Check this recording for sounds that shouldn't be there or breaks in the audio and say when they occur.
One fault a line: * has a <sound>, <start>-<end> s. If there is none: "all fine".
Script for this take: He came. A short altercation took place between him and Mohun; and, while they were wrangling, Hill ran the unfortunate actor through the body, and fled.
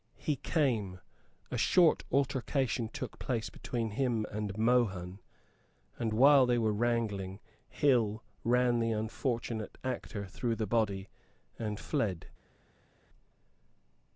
all fine